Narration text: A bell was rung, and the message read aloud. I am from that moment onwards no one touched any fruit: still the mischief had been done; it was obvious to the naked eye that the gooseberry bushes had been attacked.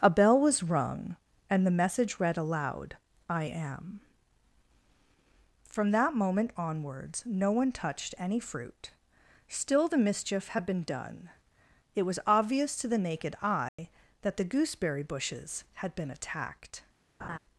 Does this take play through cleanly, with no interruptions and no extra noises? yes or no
no